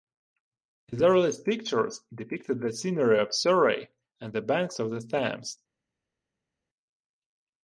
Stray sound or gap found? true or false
false